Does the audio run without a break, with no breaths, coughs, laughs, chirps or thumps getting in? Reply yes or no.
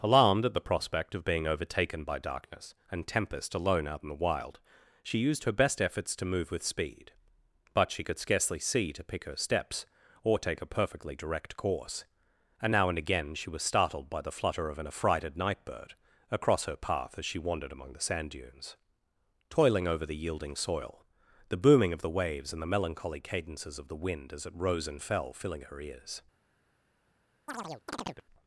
no